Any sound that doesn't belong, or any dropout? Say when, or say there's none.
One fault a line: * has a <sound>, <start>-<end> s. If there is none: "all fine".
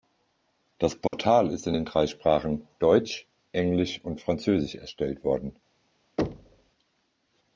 * has a dropout, 1.1-1.1 s
* has a thud, 6.2-6.7 s